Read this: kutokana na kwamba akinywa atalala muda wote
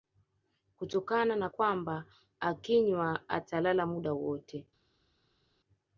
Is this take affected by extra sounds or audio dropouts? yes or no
no